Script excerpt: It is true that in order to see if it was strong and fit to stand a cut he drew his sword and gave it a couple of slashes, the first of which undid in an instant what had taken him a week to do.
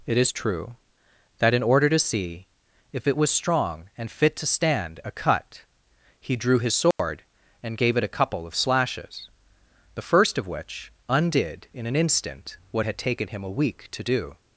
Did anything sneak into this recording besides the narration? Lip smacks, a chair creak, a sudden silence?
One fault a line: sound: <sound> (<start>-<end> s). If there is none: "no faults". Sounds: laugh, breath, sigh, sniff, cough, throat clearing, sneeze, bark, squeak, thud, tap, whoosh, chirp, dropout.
sound: dropout (6.9-7.0 s)